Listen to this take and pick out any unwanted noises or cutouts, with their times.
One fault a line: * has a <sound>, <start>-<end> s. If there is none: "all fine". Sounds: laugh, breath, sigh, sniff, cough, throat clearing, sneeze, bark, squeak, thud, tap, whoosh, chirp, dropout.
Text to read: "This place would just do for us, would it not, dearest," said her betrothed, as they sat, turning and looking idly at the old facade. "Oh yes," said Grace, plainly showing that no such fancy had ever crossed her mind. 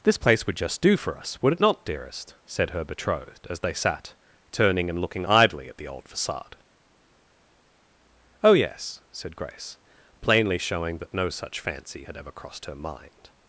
all fine